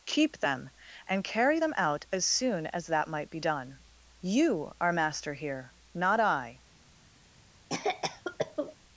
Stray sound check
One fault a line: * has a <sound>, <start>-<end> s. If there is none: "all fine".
* has a cough, 7.7-8.8 s